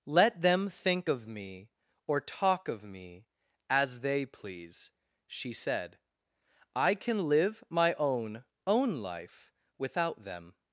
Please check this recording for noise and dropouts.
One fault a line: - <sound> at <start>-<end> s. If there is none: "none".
none